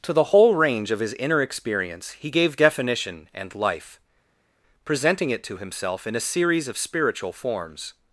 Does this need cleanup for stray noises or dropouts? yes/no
no